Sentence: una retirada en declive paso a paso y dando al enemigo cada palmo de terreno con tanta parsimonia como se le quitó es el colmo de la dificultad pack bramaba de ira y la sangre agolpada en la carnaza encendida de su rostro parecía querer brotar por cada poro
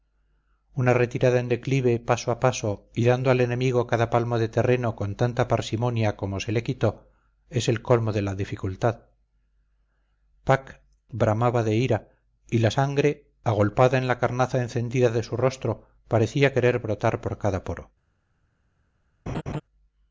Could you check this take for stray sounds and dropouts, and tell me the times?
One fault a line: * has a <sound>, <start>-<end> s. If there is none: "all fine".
* has a laugh, 19.3-19.6 s